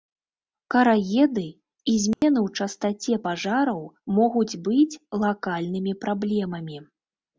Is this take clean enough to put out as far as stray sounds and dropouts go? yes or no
no